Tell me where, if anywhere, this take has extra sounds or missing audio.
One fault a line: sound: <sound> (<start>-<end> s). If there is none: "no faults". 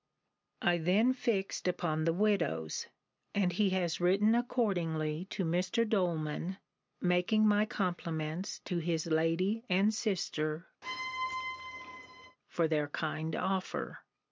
sound: squeak (10.8-12.4 s)